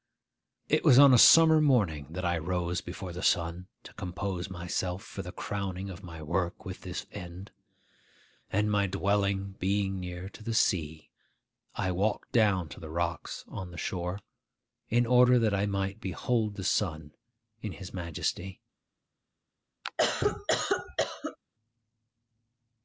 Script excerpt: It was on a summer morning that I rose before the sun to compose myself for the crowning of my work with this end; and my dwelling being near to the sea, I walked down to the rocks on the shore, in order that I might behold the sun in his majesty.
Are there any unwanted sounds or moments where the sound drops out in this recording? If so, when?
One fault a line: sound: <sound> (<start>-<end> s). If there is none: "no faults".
sound: cough (19.8-21.4 s)